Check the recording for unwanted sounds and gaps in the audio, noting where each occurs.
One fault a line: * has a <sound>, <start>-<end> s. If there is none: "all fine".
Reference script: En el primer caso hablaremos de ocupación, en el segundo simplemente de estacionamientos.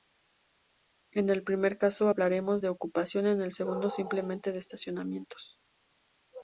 all fine